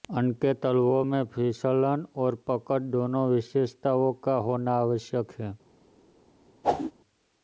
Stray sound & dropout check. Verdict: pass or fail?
fail